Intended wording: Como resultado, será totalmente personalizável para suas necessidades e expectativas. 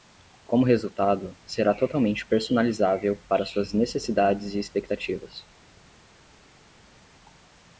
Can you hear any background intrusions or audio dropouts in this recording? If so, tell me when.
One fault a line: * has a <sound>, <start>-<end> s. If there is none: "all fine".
all fine